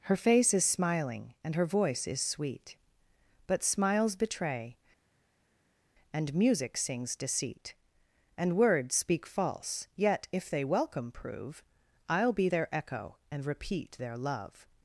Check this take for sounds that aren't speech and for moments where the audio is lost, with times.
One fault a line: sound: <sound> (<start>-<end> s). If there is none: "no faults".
no faults